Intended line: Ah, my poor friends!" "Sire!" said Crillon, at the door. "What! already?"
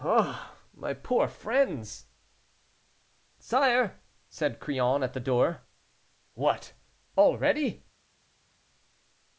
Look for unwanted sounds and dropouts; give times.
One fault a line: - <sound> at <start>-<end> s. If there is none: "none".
none